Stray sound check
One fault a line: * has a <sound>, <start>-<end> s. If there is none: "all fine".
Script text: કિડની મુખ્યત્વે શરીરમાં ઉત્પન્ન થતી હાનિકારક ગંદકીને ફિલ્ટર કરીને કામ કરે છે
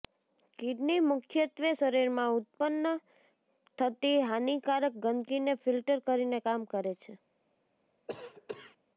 * has a cough, 8.1-8.8 s